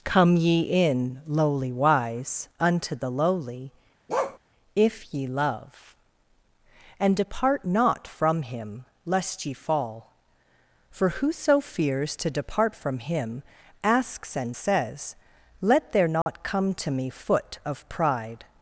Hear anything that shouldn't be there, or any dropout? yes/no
yes